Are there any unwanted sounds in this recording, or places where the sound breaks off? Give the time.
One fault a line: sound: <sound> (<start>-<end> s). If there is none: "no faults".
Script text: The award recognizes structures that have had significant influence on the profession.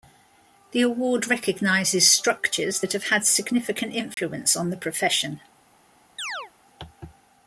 sound: dropout (4.1-4.2 s)
sound: chirp (6.2-6.5 s)